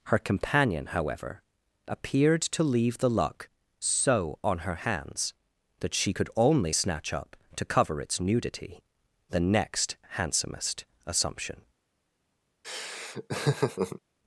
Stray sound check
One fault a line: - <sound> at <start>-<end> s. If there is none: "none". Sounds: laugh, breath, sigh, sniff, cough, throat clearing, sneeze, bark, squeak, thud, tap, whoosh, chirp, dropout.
- laugh at 12.6-14.0 s